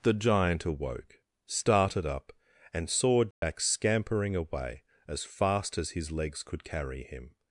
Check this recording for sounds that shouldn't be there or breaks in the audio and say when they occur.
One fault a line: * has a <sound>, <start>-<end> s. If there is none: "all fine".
* has a dropout, 3.3-3.4 s